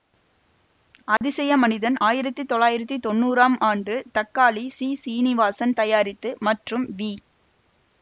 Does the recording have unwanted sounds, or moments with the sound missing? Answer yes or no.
yes